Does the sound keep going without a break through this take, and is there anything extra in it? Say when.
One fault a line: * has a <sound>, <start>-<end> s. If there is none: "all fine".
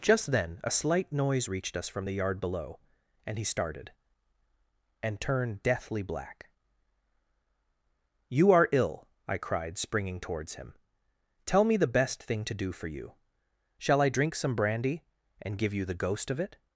all fine